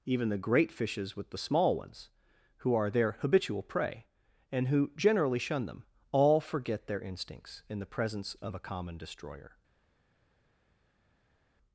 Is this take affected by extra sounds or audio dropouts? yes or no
no